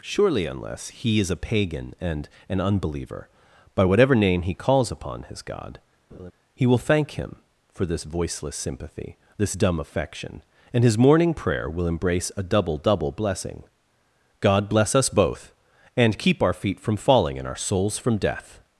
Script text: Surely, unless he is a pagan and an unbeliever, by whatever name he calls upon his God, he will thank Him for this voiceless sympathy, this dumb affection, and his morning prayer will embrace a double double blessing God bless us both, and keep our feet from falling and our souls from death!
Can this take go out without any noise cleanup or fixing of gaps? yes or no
no